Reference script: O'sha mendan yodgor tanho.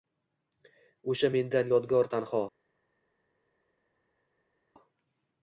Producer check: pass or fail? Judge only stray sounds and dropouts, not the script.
pass